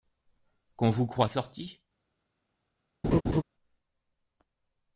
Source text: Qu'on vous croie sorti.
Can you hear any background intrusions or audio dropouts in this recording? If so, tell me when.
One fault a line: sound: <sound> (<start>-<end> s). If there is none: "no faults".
sound: laugh (3.0-3.4 s)